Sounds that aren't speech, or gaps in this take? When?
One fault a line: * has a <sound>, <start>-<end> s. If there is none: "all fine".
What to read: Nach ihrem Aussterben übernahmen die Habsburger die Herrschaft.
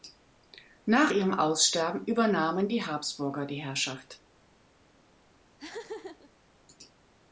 * has a laugh, 5.6-6.3 s